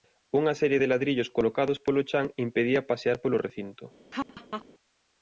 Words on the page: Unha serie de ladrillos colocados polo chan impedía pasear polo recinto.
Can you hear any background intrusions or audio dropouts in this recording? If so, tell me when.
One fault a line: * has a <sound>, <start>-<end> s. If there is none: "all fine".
* has a laugh, 4.1-4.7 s